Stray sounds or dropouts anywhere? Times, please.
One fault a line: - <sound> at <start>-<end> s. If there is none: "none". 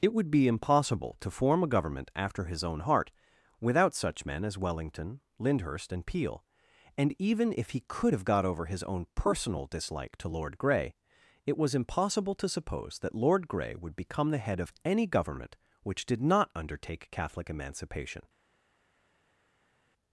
none